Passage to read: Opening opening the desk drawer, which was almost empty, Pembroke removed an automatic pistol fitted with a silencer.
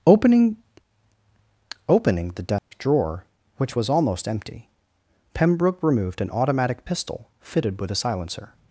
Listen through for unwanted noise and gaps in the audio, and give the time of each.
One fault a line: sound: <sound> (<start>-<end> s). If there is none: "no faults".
sound: dropout (2.6-2.7 s)